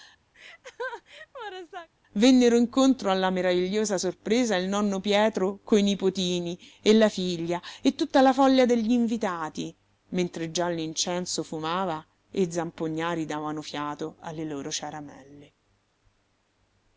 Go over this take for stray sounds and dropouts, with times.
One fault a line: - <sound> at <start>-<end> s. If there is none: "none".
- laugh at 0.3-1.9 s